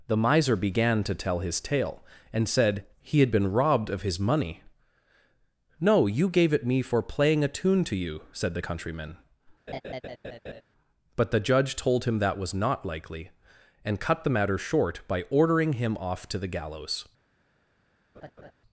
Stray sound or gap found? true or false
true